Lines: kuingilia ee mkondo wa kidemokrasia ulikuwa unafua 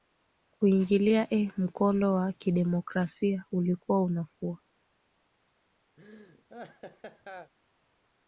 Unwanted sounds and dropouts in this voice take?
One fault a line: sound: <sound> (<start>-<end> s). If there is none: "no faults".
sound: laugh (6.0-7.5 s)